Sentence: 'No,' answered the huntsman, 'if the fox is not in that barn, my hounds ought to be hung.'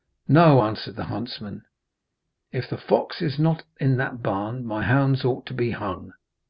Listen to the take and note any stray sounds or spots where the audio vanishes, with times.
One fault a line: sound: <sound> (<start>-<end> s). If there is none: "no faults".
no faults